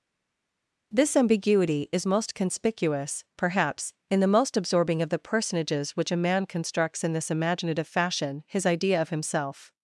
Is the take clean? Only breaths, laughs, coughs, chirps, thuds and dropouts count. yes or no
yes